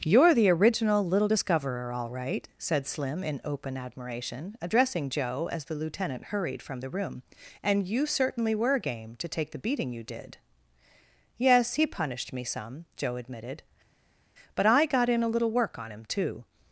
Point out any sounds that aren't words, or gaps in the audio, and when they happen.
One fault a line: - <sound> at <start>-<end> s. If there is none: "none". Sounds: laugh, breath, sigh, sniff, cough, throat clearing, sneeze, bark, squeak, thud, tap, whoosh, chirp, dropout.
none